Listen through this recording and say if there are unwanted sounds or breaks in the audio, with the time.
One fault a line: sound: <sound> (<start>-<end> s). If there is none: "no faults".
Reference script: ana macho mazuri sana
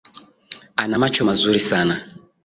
no faults